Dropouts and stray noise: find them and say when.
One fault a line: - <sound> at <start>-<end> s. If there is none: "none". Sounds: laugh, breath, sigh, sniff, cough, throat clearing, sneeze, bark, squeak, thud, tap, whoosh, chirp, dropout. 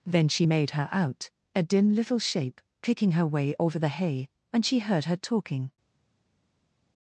none